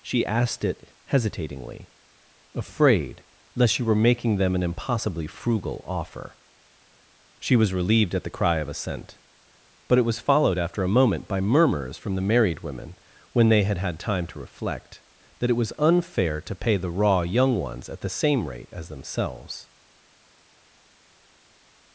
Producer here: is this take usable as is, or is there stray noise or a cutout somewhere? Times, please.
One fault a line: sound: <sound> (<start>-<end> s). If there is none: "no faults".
no faults